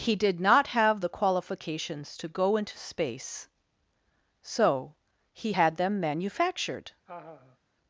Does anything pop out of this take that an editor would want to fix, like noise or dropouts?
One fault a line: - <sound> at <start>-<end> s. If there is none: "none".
- laugh at 7.1-7.6 s